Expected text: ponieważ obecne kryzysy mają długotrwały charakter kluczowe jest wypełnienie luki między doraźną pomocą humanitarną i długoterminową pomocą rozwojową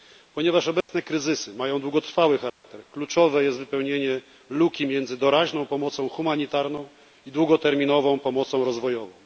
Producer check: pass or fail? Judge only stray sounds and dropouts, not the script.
fail